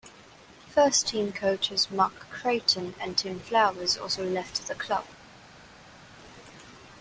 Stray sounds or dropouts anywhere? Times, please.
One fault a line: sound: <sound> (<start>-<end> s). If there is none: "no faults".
no faults